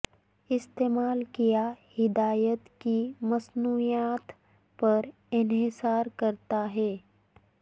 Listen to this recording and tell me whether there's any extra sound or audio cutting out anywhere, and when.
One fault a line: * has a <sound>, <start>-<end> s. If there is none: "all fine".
all fine